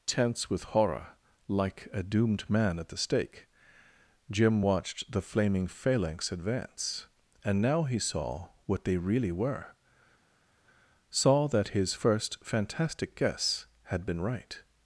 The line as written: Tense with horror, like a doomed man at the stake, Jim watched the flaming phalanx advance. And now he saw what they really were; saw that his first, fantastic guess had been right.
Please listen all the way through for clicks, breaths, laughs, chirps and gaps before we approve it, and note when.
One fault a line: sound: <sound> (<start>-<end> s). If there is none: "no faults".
no faults